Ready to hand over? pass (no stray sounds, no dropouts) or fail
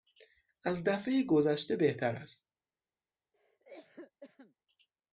fail